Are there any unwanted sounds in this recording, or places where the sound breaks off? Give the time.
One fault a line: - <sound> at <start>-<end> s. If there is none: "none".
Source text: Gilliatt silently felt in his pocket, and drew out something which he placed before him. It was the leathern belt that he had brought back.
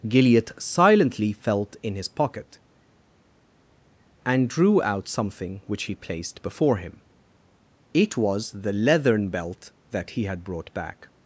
none